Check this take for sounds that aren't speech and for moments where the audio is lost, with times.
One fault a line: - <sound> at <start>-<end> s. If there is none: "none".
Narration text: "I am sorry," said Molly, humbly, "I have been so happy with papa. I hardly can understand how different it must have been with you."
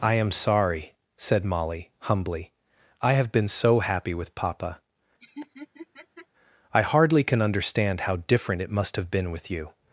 - laugh at 5.2-6.3 s